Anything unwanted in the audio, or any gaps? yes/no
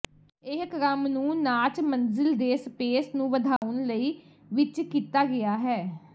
yes